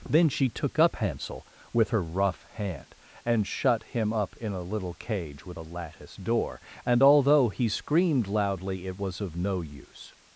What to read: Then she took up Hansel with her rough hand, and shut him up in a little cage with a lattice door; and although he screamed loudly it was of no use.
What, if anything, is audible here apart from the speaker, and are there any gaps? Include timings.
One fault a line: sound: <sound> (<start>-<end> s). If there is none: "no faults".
no faults